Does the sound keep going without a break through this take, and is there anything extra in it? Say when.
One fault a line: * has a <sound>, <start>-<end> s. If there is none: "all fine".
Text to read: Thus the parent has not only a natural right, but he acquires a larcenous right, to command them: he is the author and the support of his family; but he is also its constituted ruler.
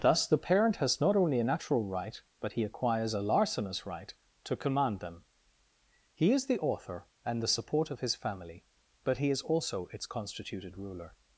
all fine